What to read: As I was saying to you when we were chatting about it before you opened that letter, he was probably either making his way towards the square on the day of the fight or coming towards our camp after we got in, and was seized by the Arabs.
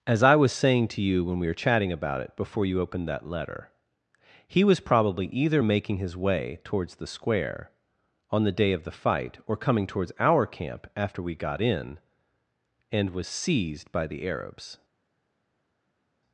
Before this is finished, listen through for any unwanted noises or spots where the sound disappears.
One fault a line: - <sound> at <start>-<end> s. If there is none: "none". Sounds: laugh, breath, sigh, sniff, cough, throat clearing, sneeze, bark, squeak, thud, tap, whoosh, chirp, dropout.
none